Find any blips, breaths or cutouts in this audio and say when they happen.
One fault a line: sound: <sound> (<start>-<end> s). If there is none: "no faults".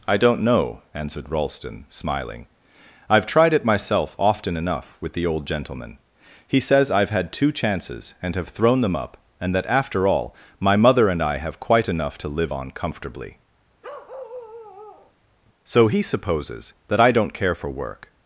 sound: bark (13.8-15.1 s)